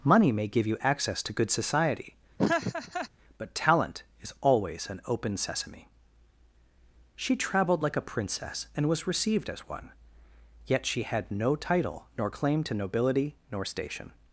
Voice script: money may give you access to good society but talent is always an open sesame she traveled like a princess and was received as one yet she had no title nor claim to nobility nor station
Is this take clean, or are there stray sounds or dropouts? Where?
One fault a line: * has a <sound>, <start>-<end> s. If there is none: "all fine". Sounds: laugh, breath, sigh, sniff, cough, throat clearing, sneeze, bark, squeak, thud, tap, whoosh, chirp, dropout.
* has a laugh, 2.4-3.1 s